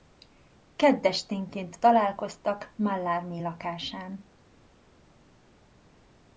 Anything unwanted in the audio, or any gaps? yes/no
no